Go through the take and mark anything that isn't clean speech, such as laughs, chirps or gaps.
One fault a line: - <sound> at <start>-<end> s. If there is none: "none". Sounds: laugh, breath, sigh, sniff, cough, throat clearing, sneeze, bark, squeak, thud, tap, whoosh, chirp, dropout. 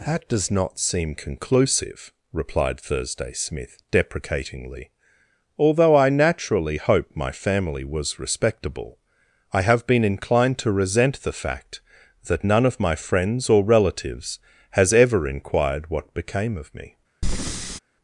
- breath at 17.2-17.8 s